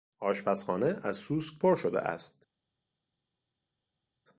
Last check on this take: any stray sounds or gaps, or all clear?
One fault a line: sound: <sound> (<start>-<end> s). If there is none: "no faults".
no faults